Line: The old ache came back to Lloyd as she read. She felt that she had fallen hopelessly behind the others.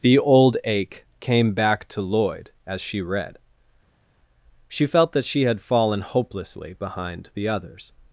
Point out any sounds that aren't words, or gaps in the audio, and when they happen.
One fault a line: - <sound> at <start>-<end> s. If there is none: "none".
none